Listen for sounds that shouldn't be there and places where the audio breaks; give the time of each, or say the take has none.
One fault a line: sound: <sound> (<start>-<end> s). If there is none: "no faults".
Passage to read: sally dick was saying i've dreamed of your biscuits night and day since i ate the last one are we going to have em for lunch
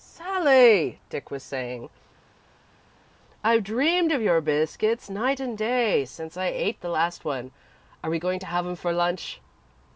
no faults